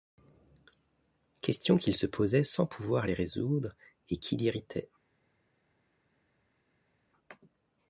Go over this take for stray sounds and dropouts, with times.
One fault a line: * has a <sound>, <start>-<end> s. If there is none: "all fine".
all fine